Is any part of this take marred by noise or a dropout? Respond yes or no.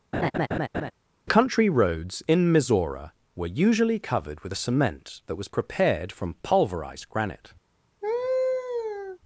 yes